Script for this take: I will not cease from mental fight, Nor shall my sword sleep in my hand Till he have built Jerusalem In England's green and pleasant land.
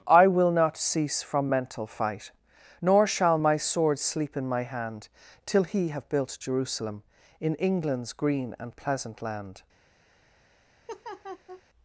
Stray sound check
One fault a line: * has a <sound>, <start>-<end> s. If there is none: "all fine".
* has a laugh, 10.9-11.6 s